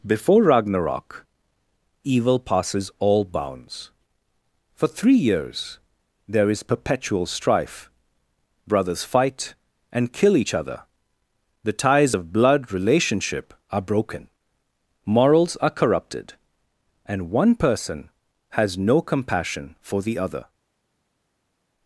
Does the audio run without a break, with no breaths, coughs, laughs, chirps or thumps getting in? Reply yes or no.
yes